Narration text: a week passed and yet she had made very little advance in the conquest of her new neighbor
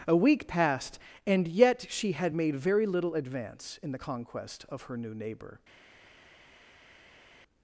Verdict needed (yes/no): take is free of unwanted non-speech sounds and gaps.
yes